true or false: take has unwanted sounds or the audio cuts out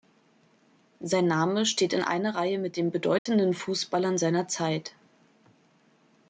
true